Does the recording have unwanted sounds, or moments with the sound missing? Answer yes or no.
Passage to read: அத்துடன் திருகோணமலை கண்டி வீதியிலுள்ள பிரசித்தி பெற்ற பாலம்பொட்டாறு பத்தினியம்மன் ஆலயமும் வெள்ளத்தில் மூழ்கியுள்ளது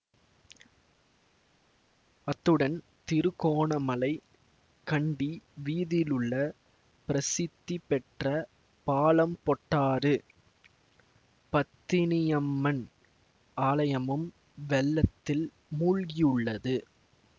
no